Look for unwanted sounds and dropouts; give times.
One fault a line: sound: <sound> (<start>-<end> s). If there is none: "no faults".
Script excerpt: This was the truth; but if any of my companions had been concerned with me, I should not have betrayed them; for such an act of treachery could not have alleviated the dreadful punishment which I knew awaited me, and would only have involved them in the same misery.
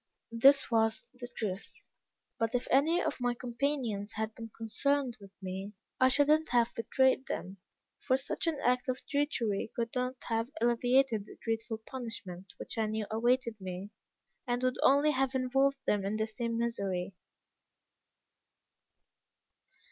no faults